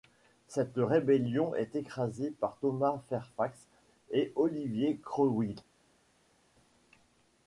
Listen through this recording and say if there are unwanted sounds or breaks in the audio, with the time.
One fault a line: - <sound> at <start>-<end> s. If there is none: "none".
none